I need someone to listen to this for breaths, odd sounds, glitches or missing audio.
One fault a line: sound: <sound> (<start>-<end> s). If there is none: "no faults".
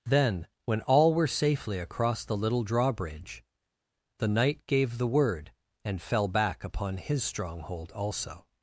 no faults